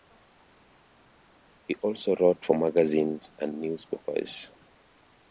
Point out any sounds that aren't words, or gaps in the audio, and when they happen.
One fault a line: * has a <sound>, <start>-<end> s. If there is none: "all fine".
all fine